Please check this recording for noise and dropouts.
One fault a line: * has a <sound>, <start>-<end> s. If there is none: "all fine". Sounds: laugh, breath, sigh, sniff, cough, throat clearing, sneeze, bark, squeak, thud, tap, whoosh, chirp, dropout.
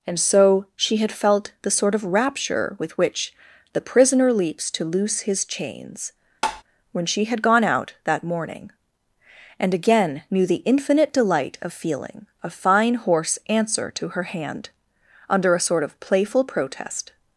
* has a tap, 6.4-6.6 s